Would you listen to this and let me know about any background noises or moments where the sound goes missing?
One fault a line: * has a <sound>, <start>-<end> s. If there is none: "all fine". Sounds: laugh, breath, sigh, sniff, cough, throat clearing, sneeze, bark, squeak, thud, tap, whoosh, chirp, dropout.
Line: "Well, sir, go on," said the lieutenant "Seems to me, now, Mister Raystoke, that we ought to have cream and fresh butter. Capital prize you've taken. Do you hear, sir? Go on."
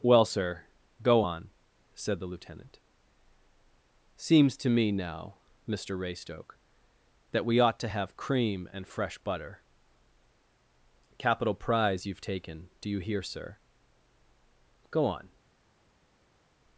all fine